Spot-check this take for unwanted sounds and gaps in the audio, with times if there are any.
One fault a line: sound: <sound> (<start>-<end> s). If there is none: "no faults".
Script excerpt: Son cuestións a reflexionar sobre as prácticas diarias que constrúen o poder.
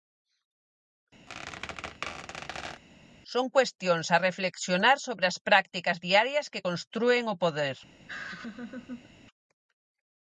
sound: squeak (1.3-2.8 s)
sound: laugh (8.1-9.1 s)